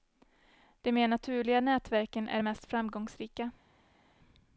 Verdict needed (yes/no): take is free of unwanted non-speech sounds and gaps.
yes